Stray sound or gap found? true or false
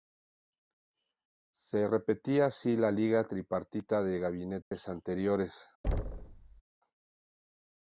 true